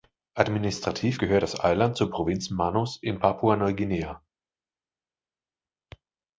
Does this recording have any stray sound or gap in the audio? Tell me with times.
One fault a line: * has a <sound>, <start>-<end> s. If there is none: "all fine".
all fine